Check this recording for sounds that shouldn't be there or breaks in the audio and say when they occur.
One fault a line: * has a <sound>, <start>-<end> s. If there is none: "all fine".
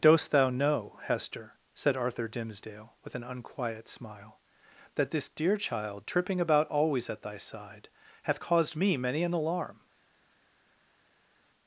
all fine